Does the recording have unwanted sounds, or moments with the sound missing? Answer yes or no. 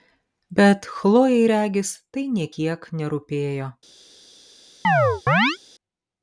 yes